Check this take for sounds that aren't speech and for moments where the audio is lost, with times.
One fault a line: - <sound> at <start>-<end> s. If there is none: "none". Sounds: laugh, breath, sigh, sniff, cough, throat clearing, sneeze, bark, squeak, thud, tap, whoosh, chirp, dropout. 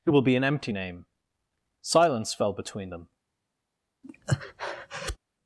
- breath at 4.0-5.2 s